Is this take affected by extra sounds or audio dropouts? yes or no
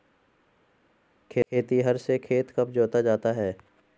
no